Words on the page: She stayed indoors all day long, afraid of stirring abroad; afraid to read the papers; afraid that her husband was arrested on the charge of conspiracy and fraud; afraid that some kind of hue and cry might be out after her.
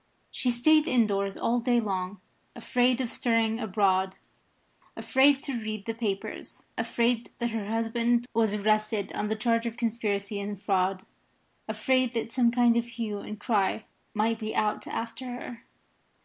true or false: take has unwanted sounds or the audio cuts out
false